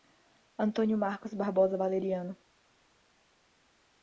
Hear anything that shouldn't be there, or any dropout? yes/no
no